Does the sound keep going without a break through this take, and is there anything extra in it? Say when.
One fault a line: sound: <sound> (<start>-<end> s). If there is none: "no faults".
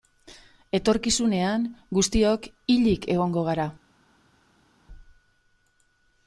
no faults